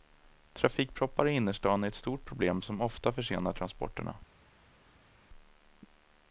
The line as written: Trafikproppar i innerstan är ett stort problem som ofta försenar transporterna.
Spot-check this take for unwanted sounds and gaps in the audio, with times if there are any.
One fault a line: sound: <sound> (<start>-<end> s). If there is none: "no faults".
no faults